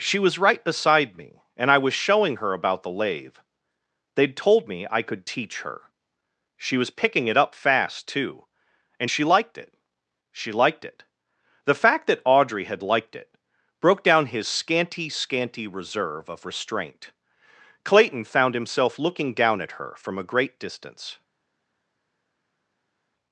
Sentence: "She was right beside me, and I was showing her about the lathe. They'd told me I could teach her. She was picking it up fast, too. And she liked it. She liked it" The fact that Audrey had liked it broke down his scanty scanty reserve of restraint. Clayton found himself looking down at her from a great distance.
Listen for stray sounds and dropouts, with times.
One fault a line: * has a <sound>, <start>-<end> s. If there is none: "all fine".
all fine